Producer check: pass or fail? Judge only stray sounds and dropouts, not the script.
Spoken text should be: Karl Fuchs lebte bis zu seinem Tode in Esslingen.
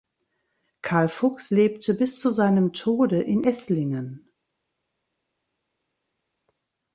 pass